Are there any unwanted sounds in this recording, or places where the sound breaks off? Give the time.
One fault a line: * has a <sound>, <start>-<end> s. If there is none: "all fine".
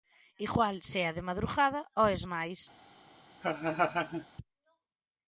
* has a laugh, 3.4-4.3 s